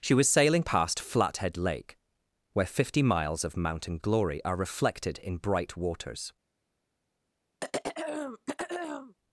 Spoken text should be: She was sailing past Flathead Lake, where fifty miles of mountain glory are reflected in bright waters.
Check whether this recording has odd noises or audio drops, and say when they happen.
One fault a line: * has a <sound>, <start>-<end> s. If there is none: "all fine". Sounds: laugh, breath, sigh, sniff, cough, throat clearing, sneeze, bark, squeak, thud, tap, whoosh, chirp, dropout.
* has a throat clearing, 7.6-9.1 s